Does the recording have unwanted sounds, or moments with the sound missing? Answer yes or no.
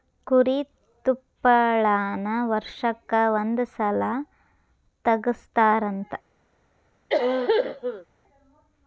yes